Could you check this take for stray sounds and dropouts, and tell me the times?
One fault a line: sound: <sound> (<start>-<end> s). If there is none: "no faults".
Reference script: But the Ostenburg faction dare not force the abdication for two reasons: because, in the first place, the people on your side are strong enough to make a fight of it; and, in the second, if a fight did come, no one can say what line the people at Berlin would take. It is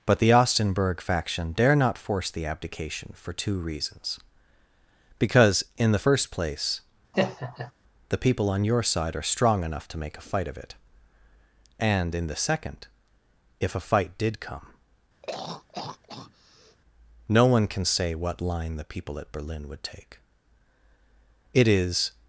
sound: laugh (7.1-7.7 s)
sound: throat clearing (15.2-16.8 s)